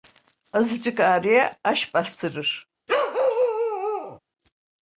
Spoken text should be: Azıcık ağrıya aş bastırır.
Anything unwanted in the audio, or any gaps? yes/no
yes